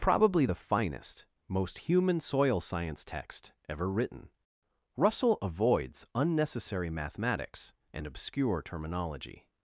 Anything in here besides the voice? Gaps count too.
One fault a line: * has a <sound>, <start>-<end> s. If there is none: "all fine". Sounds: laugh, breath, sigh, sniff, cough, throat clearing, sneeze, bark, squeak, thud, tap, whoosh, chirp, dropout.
all fine